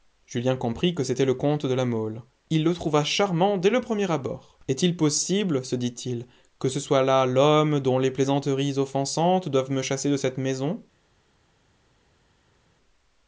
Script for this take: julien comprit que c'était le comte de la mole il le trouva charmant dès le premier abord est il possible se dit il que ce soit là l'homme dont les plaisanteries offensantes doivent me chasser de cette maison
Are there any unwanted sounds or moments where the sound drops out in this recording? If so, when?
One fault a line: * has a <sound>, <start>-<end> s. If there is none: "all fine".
all fine